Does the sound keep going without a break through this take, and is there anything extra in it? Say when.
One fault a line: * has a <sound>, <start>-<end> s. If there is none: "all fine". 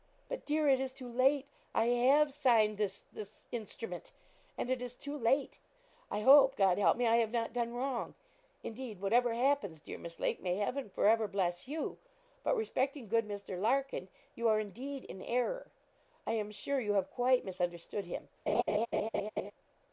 * has a laugh, 18.5-19.5 s